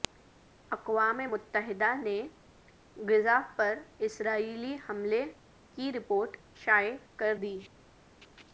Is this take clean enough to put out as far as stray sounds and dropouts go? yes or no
yes